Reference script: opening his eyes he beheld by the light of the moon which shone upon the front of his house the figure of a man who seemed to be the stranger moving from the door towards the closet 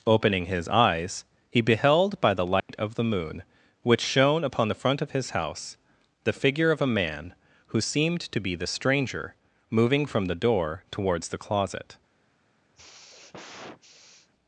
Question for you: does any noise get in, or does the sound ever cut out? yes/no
yes